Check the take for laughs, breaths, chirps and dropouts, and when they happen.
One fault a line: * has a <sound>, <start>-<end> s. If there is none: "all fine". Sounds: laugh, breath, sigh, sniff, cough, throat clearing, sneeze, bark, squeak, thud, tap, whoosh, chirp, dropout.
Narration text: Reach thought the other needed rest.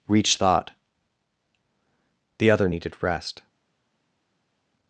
all fine